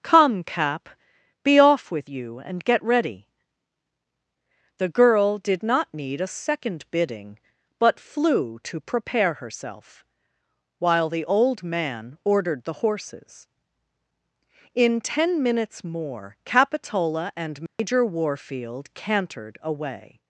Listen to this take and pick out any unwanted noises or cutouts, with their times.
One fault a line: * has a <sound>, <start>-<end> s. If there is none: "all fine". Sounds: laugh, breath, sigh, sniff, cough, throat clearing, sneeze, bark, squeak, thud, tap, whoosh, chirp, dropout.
* has a dropout, 17.7-17.8 s